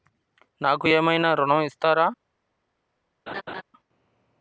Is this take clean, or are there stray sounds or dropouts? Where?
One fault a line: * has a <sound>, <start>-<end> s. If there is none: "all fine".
* has a laugh, 3.3-3.6 s